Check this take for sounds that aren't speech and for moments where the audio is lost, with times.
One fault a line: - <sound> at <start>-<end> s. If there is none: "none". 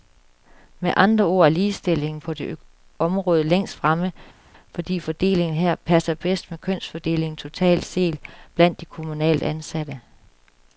none